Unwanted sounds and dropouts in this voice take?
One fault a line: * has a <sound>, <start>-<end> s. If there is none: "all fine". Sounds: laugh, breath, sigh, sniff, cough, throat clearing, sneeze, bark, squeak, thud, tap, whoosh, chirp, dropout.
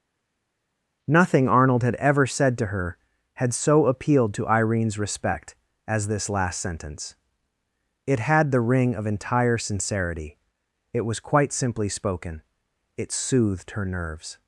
all fine